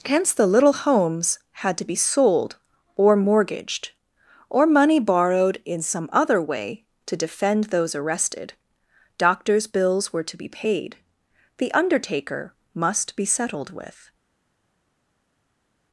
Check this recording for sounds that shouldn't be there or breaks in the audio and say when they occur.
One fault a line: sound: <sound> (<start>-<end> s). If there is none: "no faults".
no faults